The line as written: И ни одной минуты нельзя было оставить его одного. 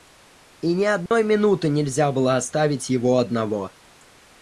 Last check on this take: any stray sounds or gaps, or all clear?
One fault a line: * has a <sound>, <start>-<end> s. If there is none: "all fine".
* has a dropout, 1.1-1.1 s